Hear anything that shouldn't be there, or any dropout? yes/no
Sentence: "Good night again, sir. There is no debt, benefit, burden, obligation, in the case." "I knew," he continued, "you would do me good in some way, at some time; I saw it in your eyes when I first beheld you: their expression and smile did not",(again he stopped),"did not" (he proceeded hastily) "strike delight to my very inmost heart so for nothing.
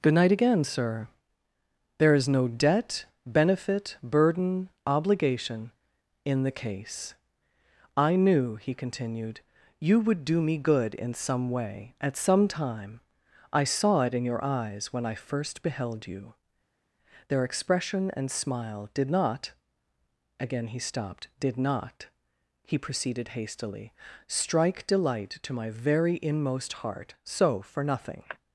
no